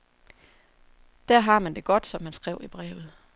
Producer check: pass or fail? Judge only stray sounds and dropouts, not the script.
pass